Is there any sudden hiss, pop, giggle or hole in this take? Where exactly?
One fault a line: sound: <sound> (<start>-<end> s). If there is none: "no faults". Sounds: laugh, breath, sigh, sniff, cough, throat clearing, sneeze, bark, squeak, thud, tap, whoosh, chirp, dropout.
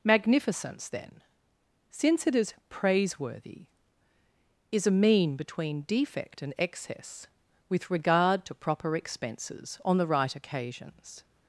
no faults